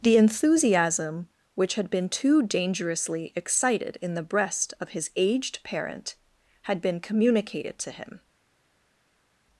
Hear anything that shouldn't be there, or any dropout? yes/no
no